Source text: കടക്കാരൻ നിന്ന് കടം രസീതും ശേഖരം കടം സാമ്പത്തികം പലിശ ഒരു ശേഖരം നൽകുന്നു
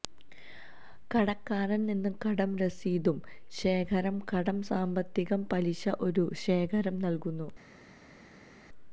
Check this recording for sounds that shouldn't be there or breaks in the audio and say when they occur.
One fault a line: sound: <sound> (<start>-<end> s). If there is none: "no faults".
no faults